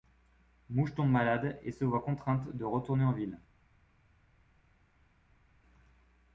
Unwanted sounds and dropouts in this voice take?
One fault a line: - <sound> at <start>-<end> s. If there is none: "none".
none